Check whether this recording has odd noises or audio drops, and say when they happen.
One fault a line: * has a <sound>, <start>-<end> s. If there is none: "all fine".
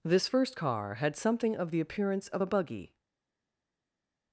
all fine